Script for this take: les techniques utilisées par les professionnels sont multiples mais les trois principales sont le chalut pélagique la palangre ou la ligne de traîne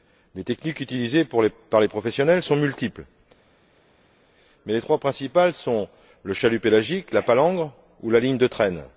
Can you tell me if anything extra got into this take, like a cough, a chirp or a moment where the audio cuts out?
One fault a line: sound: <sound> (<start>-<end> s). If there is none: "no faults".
no faults